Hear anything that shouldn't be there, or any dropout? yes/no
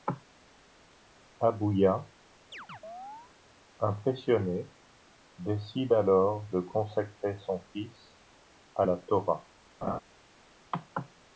yes